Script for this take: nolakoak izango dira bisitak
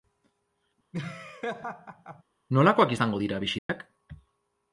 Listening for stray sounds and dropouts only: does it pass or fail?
fail